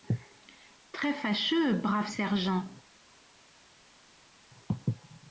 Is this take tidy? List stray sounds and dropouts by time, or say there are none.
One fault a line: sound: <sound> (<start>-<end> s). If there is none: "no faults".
no faults